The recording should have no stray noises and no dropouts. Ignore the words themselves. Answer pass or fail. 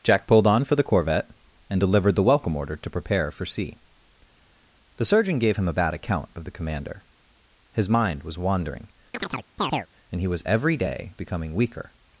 fail